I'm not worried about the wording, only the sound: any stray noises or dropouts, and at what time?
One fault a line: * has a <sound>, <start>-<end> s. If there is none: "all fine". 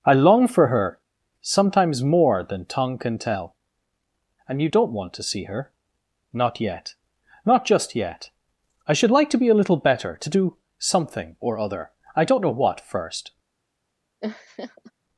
* has a laugh, 14.2-14.9 s